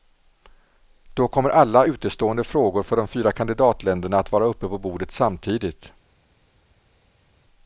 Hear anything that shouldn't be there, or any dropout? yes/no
no